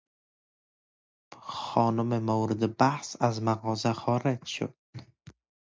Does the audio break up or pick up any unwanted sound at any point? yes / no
no